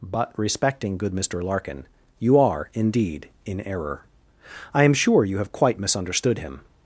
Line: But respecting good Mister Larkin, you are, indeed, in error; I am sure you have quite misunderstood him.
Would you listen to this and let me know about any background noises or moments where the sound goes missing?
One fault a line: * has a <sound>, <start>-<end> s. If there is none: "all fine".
all fine